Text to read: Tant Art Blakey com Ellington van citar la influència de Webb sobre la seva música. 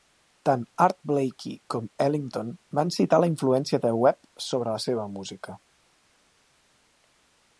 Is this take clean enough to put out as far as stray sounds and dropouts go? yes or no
yes